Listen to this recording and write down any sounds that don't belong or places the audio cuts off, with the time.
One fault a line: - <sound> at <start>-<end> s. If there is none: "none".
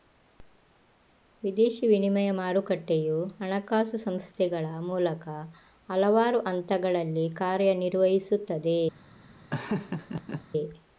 - laugh at 9.5-10.4 s